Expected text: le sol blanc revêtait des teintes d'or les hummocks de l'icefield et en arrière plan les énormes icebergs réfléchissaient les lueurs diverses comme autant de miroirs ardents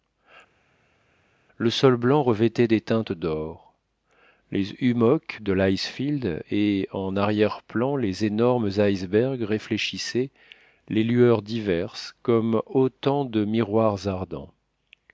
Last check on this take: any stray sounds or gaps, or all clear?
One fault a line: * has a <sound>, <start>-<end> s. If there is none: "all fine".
all fine